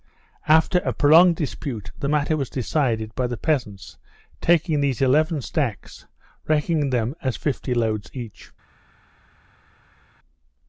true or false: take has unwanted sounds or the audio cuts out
false